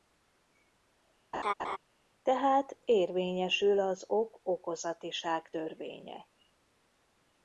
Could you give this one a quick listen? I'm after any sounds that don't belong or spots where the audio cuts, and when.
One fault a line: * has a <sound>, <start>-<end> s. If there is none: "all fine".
* has a laugh, 1.3-1.8 s